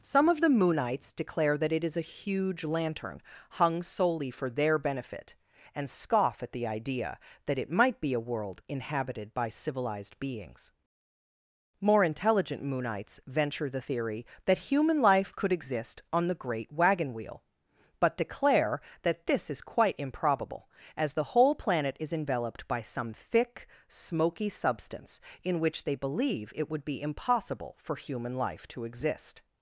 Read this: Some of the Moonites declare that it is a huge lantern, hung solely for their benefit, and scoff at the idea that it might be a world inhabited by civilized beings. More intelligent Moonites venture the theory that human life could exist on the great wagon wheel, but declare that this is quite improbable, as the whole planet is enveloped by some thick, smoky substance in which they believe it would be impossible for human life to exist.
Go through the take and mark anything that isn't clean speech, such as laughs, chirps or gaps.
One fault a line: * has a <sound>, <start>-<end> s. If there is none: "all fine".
all fine